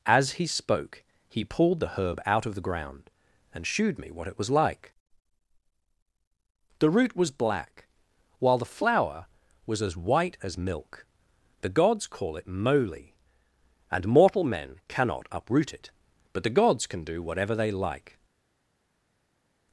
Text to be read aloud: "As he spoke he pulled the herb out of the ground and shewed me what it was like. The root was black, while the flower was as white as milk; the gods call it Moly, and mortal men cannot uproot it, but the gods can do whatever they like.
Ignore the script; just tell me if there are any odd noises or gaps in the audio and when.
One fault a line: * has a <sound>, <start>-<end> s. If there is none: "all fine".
all fine